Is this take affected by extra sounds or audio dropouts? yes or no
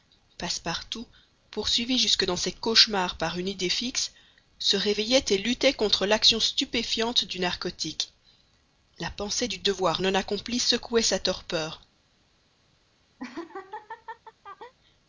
yes